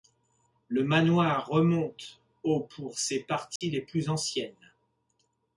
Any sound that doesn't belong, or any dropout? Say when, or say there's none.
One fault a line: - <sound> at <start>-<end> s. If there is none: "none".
- dropout at 3.6-3.6 s